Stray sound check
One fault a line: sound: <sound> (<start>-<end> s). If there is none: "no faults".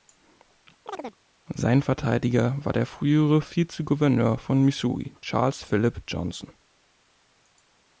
sound: chirp (0.9-1.2 s)